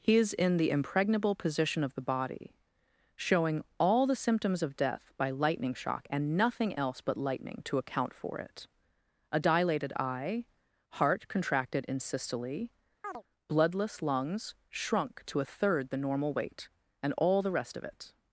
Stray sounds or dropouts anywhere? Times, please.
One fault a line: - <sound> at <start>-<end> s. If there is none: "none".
- chirp at 13.0-13.2 s